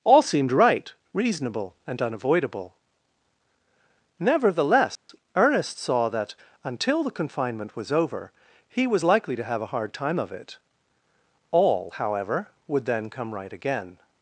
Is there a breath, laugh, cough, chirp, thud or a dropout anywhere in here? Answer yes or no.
yes